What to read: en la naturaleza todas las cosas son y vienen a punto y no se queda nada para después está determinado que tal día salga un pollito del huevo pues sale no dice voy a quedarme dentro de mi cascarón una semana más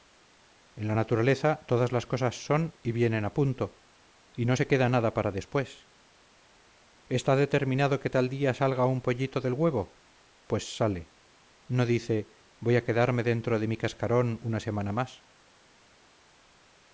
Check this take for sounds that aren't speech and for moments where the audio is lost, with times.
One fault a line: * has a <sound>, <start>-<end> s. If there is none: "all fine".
all fine